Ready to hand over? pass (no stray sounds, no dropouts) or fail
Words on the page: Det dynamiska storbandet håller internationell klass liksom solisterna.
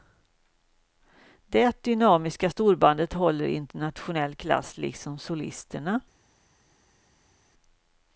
pass